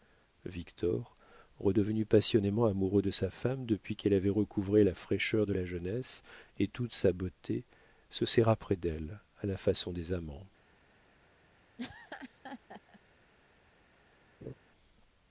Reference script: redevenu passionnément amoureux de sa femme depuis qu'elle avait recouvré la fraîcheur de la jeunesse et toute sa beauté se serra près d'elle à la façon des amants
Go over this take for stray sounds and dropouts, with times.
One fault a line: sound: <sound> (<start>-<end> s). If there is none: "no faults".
sound: laugh (11.8-13.0 s)
sound: laugh (14.4-14.5 s)